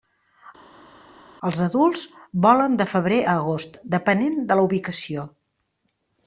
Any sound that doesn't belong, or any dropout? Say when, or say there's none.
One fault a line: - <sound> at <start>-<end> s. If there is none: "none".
none